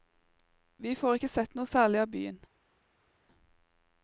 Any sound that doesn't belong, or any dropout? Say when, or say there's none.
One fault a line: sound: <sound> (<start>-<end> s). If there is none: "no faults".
no faults